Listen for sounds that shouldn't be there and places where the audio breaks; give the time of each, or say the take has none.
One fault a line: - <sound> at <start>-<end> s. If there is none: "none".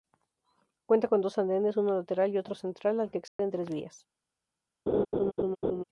- dropout at 3.3-3.4 s
- laugh at 4.9-5.8 s